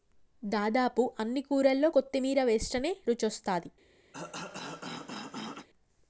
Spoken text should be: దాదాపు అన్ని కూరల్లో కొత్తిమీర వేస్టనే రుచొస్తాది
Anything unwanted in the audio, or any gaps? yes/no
yes